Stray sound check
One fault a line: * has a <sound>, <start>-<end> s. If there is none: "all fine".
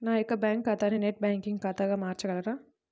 all fine